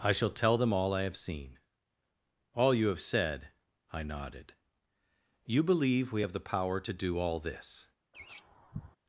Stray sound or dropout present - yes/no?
yes